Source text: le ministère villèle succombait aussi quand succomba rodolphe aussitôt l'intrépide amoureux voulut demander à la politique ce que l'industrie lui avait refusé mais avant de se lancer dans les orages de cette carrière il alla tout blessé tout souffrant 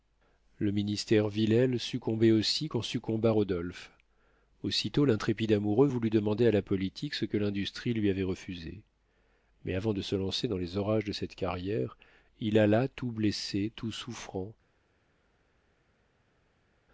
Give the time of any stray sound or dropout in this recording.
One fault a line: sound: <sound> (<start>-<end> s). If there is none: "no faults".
no faults